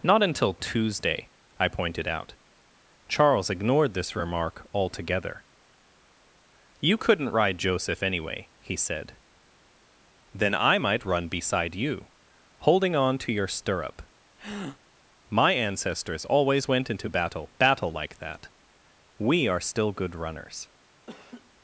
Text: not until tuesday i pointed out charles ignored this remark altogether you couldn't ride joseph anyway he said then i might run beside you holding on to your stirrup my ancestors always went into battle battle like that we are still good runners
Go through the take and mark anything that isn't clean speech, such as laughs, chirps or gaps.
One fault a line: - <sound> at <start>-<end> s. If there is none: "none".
- breath at 14.4-14.8 s
- laugh at 21.1-21.5 s